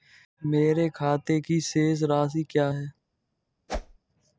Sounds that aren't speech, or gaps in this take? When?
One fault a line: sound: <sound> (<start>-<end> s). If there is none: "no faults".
sound: whoosh (3.7-4.0 s)